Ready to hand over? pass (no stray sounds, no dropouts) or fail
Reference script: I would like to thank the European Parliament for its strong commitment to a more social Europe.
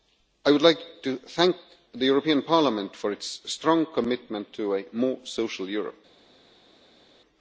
pass